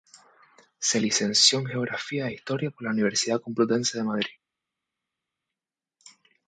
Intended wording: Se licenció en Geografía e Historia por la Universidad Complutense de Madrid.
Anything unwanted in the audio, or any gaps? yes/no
no